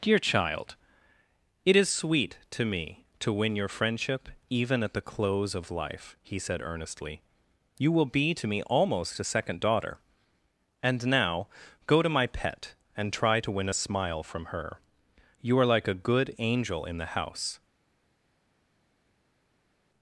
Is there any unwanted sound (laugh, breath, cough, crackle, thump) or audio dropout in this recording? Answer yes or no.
no